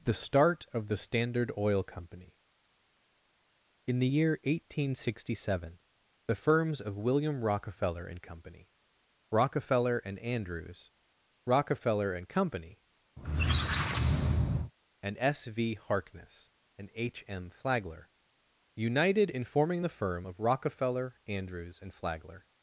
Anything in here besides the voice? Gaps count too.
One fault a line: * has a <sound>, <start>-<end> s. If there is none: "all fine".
* has a squeak, 13.2-14.7 s